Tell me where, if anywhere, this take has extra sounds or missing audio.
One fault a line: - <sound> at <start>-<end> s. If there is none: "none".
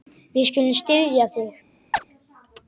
- chirp at 1.9-2.0 s